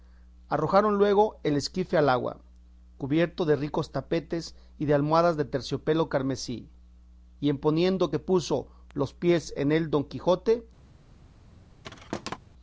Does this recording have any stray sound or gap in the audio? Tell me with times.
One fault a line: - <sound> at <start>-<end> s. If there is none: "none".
- thud at 11.8-12.4 s